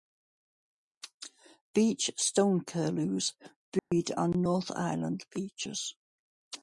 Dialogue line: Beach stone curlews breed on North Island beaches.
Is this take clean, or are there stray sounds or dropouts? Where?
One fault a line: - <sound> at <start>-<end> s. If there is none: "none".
- dropout at 3.8-3.9 s